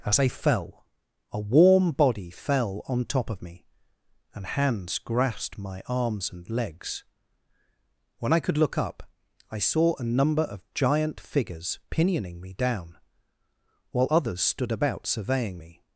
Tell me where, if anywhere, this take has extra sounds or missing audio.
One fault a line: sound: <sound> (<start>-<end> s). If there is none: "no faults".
no faults